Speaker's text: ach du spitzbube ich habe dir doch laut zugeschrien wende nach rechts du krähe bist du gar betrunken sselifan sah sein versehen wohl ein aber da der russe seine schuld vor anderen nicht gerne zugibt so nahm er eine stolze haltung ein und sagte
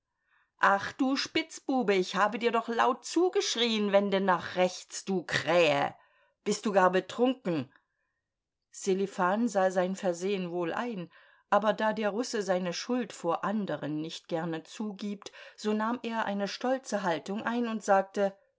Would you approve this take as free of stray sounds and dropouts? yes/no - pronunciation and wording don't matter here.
yes